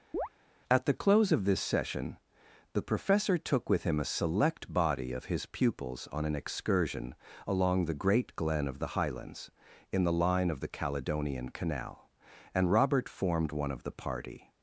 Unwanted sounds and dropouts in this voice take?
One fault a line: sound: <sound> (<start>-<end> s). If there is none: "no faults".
sound: chirp (0.1-0.3 s)